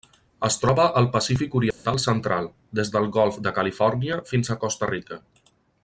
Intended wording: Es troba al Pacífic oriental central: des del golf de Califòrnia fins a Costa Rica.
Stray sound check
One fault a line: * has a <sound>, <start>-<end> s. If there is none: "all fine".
* has a dropout, 1.7-1.9 s